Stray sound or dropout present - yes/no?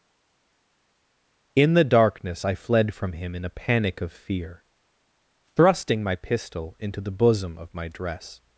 no